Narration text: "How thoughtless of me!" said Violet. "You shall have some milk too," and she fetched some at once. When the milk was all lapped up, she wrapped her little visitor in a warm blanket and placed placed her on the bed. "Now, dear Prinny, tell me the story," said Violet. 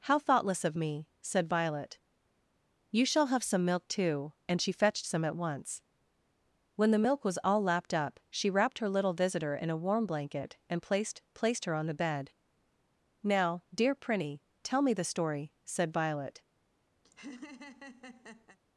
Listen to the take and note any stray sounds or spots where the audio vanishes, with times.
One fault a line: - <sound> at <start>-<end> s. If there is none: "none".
- laugh at 17.0-18.6 s